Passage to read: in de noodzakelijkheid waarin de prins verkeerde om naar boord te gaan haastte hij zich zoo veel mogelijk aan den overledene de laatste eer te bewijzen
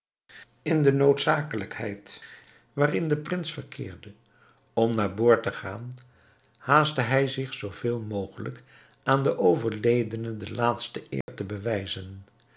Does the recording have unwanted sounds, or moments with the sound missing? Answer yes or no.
yes